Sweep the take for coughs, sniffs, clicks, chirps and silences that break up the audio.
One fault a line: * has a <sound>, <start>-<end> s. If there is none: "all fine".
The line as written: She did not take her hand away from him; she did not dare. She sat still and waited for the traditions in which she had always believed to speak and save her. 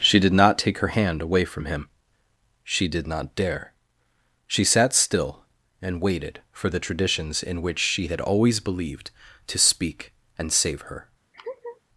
* has a laugh, 11.3-11.8 s